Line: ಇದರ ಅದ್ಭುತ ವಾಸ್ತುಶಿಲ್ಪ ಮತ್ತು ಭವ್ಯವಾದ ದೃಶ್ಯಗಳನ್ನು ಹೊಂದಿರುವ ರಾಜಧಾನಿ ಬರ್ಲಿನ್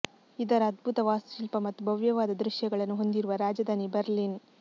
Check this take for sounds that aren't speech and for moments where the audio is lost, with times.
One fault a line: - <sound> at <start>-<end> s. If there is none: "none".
none